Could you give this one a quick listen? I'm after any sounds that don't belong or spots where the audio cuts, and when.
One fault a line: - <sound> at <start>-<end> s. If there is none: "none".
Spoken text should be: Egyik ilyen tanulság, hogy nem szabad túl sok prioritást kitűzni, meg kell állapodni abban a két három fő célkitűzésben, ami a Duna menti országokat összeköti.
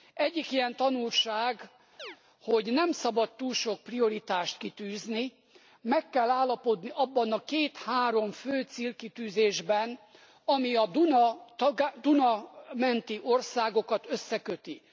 - chirp at 2.0-2.2 s